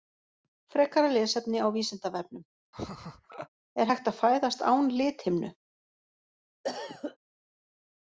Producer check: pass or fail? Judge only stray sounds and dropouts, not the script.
fail